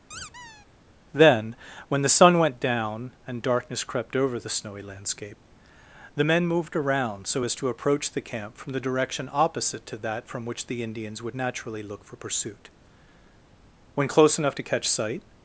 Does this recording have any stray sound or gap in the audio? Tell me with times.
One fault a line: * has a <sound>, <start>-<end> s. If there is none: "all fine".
* has a squeak, 0.1-0.7 s